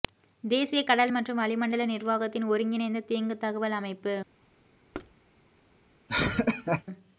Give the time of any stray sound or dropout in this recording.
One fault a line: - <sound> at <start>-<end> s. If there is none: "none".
- thud at 4.9-5.2 s
- laugh at 6.1-6.8 s